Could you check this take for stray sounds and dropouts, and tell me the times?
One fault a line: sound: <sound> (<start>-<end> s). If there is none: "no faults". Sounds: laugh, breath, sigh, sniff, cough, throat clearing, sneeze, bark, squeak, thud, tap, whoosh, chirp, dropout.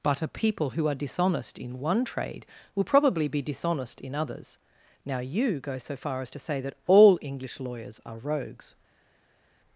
no faults